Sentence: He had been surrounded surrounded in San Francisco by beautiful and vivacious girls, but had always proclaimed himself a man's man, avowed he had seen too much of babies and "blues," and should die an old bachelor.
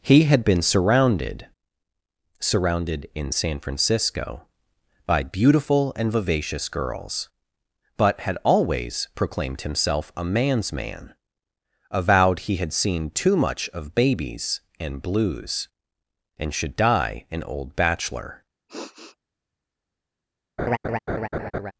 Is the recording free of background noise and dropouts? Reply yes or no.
no